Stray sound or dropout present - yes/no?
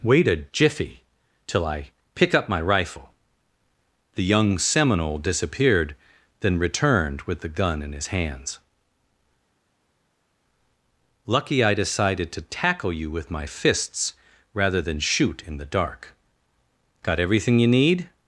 no